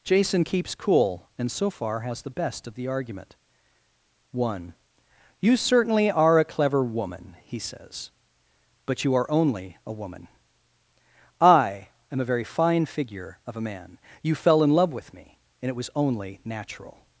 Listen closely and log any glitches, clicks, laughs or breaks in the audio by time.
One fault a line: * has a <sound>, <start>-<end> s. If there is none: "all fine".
all fine